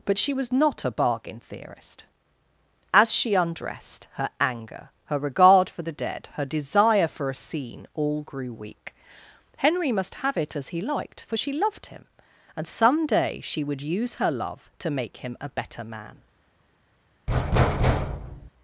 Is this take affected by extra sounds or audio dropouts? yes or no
yes